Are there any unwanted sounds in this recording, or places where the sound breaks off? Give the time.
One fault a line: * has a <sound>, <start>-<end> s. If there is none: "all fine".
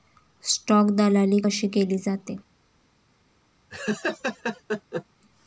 * has a laugh, 3.7-5.0 s